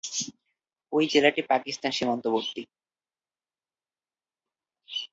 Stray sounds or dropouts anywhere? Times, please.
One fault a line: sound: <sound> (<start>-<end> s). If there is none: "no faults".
no faults